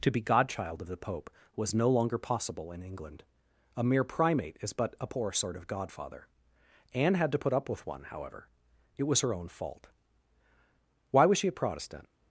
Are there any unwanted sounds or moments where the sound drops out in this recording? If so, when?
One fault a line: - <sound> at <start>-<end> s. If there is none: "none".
none